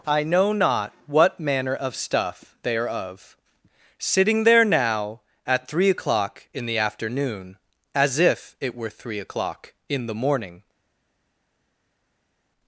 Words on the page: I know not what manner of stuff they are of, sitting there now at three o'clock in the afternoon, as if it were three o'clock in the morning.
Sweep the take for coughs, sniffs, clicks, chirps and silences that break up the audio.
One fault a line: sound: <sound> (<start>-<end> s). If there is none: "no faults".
no faults